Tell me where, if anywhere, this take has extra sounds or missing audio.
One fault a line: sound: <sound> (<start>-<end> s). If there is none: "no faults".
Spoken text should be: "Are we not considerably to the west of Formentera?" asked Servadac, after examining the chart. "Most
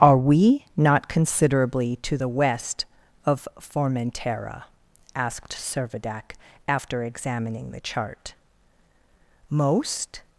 no faults